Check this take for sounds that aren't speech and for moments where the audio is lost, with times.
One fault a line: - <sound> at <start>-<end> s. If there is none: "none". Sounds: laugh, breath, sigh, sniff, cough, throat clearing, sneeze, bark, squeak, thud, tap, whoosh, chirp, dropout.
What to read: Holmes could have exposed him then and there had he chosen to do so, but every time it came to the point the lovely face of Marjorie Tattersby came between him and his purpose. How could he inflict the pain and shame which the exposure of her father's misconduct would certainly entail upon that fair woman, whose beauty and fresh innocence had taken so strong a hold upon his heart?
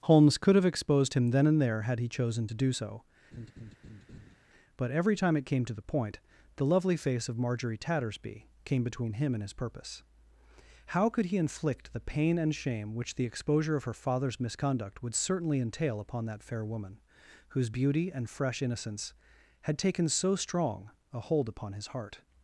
- laugh at 3.3-4.4 s